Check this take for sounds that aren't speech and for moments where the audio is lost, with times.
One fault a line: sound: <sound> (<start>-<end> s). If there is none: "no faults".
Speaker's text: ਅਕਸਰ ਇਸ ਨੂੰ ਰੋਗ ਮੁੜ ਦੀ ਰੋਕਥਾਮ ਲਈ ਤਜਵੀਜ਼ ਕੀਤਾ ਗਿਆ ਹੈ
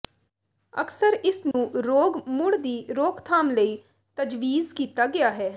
sound: dropout (1.5-1.5 s)